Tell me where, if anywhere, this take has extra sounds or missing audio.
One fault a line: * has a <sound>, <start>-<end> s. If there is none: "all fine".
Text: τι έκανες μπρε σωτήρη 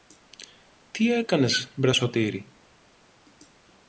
all fine